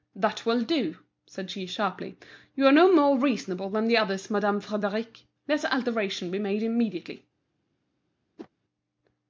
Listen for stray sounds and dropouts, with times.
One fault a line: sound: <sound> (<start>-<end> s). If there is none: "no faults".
sound: whoosh (8.4-8.5 s)